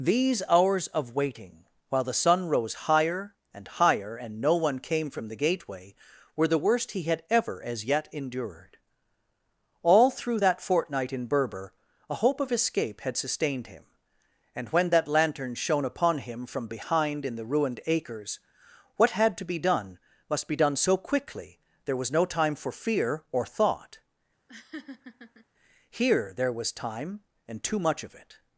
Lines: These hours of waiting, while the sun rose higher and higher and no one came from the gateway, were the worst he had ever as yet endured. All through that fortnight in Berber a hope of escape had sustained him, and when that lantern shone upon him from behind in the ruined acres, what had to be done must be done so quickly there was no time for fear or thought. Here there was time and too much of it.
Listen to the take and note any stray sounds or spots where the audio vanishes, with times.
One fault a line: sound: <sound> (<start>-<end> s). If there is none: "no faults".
sound: laugh (24.5-25.5 s)